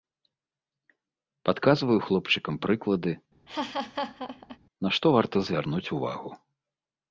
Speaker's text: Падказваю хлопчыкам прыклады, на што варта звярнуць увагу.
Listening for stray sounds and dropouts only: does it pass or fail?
fail